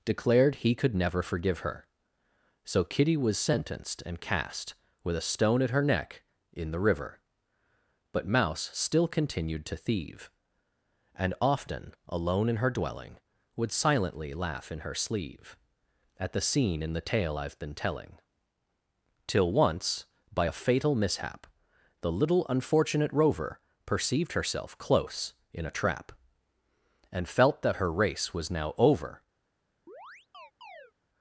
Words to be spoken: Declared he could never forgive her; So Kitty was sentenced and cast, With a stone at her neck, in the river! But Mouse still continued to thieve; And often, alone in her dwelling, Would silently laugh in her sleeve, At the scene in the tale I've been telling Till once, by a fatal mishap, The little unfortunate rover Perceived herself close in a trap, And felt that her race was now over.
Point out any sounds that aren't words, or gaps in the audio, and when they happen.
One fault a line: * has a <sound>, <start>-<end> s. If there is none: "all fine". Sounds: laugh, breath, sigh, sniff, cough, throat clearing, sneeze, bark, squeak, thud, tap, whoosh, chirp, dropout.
* has a chirp, 29.9-30.9 s